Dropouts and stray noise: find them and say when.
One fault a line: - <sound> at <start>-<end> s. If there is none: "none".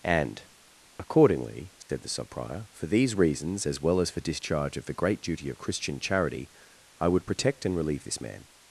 - dropout at 1.8-1.9 s